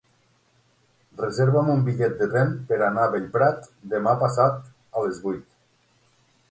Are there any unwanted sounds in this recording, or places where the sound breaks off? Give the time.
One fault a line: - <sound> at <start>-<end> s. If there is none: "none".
none